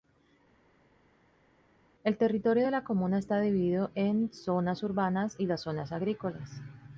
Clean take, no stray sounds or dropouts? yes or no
yes